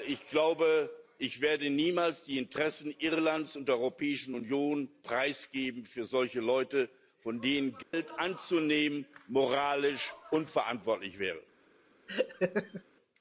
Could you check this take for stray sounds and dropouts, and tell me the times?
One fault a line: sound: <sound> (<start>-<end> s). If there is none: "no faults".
sound: dropout (7.8-7.9 s)
sound: laugh (12.1-12.8 s)